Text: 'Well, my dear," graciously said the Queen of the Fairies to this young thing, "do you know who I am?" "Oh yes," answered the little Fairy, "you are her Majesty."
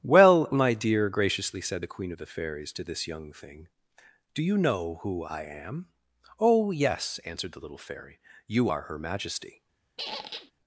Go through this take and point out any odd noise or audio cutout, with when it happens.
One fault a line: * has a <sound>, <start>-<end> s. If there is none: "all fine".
* has a squeak, 10.0-10.5 s